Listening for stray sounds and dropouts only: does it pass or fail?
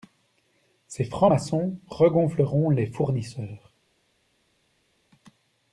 pass